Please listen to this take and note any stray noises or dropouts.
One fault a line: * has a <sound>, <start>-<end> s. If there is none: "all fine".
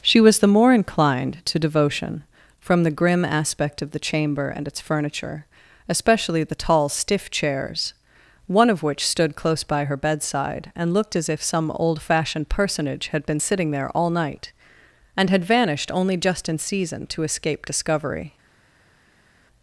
all fine